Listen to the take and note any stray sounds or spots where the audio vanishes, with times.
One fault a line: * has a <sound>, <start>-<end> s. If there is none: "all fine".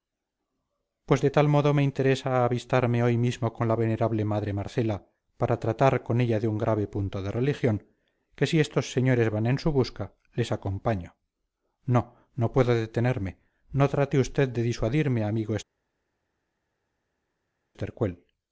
all fine